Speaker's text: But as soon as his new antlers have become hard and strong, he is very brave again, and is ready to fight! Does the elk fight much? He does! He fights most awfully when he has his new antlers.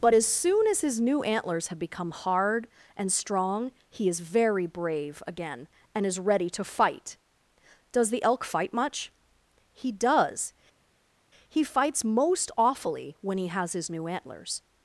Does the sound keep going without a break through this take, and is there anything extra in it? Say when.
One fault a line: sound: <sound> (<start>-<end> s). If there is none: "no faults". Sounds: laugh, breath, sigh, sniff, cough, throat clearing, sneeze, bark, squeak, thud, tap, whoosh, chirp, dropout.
no faults